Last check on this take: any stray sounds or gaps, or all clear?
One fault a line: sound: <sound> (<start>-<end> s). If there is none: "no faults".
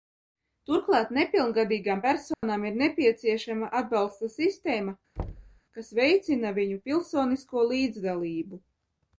sound: dropout (2.3-2.4 s)
sound: thud (5.2-5.6 s)